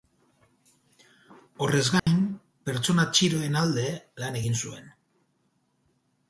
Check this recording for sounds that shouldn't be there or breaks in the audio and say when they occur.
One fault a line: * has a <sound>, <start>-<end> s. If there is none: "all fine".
* has a dropout, 2.0-2.1 s